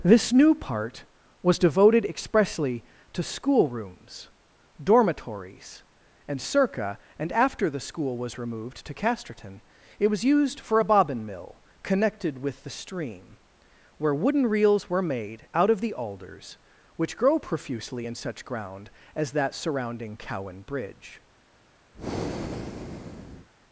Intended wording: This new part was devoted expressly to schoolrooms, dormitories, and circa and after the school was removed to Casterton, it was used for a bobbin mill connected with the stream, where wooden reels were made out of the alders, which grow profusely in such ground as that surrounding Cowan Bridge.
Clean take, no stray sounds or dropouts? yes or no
no